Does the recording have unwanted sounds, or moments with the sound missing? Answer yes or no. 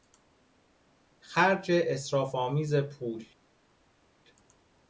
no